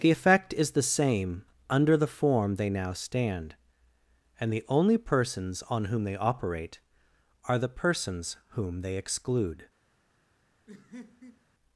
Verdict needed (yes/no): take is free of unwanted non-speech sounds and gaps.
no